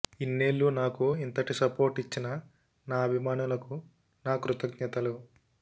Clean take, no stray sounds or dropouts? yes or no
yes